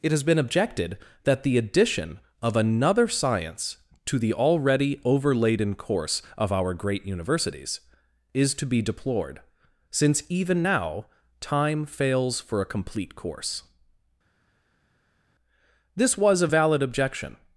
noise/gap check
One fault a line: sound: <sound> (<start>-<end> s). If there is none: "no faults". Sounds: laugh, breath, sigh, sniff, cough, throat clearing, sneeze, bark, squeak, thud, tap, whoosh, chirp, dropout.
no faults